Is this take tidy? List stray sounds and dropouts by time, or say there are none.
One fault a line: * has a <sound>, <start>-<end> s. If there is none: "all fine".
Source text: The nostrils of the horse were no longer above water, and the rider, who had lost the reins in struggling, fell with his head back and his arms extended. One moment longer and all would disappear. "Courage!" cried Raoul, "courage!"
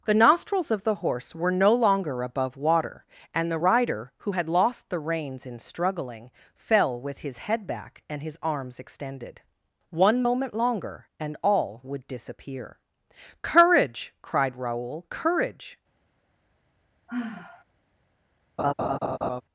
* has a sigh, 17.1-17.6 s
* has a laugh, 18.6-19.4 s